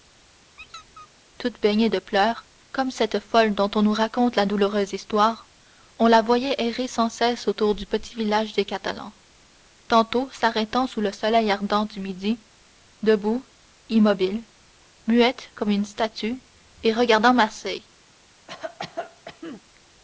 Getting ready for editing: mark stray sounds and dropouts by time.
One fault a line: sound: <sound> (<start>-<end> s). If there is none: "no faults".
sound: squeak (0.6-1.1 s)
sound: cough (18.5-19.6 s)